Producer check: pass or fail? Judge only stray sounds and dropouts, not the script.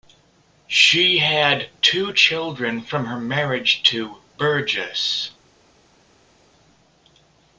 pass